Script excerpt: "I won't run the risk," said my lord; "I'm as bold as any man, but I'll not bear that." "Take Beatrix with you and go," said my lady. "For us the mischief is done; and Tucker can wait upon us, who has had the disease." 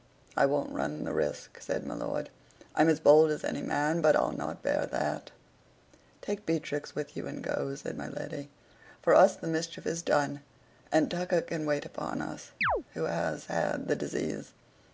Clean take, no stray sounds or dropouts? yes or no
no